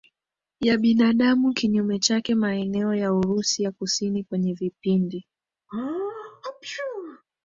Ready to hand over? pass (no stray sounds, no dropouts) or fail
fail